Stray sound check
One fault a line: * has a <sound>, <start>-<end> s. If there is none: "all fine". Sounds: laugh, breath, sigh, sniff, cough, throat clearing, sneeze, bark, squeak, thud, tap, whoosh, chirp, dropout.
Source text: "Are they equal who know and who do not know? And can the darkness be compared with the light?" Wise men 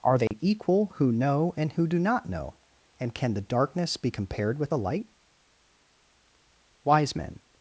* has a dropout, 0.3-0.3 s